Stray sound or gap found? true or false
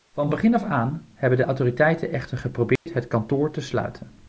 true